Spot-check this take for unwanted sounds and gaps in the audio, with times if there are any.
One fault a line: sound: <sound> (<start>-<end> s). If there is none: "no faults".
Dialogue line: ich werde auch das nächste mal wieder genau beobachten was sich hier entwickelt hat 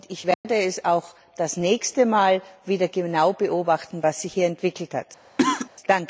sound: dropout (0.3-0.4 s)
sound: cough (5.4-5.7 s)